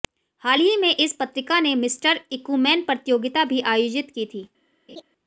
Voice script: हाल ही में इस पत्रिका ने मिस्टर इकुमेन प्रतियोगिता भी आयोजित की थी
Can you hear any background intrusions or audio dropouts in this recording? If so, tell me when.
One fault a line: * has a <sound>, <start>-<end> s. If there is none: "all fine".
* has a laugh, 4.9-5.0 s